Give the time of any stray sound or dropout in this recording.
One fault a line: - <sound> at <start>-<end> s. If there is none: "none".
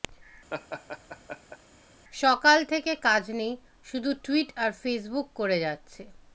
- laugh at 0.5-1.6 s